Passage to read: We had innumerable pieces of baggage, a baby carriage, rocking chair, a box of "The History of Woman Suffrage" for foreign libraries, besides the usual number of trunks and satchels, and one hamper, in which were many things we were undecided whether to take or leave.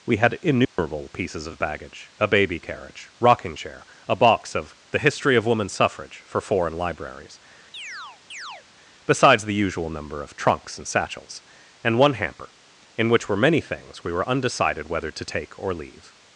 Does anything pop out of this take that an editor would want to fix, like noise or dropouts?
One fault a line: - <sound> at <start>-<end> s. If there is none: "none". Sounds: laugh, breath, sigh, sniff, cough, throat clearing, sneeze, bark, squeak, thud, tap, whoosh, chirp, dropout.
- dropout at 0.6-0.8 s
- chirp at 7.7-8.7 s